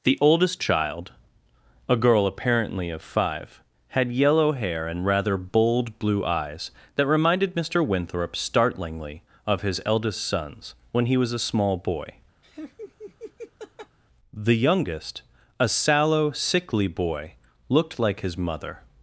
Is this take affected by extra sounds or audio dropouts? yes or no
yes